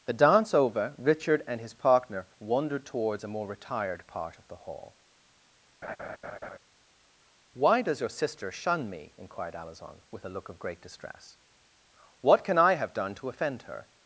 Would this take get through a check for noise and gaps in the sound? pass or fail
fail